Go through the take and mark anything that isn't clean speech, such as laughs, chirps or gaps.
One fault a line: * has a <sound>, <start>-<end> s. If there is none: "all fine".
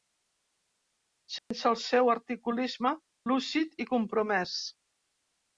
* has a dropout, 1.4-1.5 s